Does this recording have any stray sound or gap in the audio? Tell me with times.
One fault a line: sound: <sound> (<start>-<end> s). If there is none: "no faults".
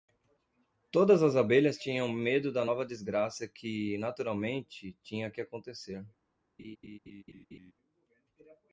sound: laugh (6.6-7.7 s)